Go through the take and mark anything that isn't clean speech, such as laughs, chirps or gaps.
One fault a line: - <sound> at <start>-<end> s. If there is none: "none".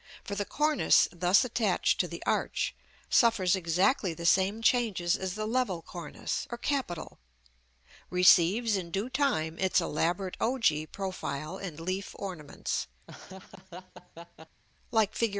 - laugh at 13.1-14.6 s